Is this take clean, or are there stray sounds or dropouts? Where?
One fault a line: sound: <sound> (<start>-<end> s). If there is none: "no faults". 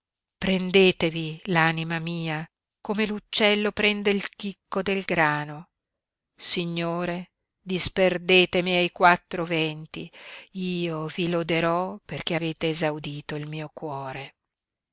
no faults